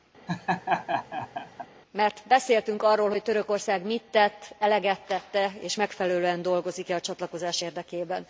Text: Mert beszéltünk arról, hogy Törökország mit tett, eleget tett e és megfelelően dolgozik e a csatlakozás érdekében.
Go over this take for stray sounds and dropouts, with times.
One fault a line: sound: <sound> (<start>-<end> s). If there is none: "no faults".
sound: laugh (0.3-1.7 s)